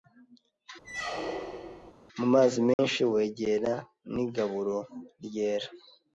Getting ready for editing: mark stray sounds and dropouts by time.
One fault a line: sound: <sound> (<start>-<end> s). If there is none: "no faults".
sound: squeak (0.8-1.9 s)
sound: dropout (2.7-2.8 s)